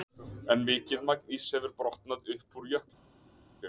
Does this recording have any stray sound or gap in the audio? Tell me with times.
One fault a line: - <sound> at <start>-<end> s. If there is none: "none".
none